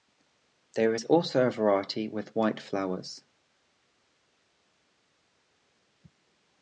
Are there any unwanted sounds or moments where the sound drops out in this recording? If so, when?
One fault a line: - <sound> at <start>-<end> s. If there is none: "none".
none